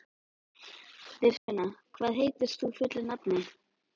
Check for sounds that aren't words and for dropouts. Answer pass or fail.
fail